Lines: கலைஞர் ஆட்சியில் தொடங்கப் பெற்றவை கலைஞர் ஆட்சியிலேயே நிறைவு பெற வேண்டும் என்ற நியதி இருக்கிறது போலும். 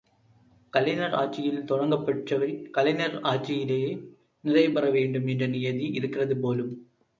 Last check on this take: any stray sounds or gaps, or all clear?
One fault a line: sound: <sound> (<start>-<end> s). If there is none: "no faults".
no faults